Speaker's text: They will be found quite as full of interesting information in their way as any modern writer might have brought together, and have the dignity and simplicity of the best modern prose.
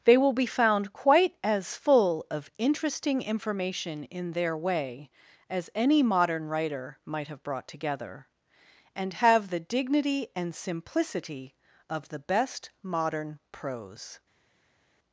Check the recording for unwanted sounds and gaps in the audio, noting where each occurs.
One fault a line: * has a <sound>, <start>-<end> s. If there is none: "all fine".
all fine